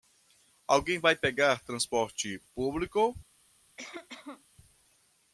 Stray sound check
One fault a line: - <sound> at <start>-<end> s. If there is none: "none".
- cough at 3.8-4.4 s